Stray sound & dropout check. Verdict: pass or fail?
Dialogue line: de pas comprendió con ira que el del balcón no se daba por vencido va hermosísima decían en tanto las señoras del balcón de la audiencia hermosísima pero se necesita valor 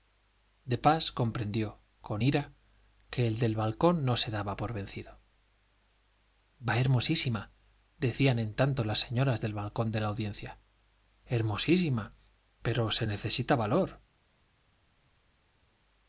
pass